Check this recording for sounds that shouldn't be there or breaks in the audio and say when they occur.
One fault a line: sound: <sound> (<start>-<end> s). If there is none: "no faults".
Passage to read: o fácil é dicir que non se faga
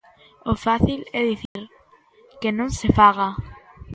sound: dropout (1.5-1.6 s)